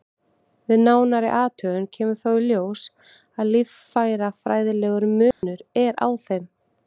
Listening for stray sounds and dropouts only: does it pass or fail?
fail